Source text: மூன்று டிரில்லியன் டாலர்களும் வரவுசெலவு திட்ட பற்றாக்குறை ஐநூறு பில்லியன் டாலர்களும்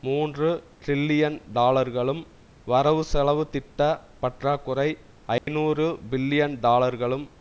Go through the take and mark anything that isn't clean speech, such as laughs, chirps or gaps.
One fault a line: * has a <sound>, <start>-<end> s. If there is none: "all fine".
* has a dropout, 5.4-5.5 s